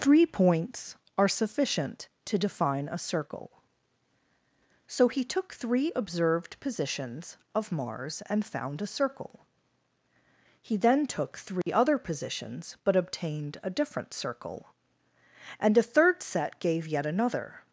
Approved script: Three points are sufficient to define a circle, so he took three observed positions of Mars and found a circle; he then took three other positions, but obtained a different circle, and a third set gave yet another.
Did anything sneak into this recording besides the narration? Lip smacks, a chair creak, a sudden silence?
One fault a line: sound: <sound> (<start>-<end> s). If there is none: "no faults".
sound: dropout (11.6-11.7 s)